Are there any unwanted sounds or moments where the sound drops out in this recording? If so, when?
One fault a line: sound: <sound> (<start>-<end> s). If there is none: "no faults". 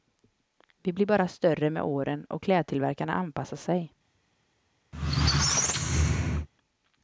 sound: squeak (4.9-6.5 s)